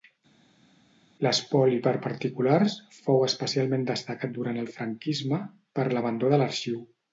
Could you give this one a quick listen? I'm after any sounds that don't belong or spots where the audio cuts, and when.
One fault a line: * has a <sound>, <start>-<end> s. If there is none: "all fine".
all fine